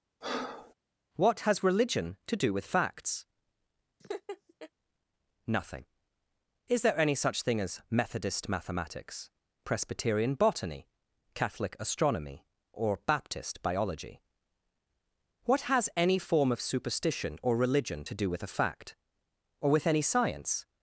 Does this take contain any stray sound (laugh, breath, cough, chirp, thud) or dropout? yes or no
yes